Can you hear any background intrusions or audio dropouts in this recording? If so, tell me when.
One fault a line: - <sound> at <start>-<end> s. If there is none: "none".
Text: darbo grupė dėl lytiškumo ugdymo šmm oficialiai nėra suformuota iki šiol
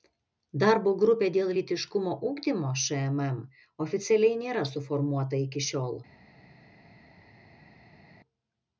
none